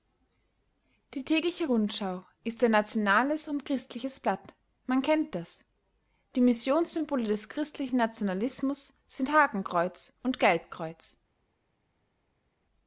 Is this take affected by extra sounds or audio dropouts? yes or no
no